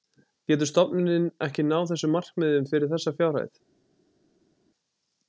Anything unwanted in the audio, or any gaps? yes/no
no